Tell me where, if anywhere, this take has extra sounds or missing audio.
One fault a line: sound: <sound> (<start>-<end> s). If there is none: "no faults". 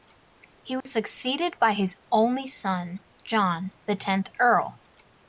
sound: dropout (0.8-0.9 s)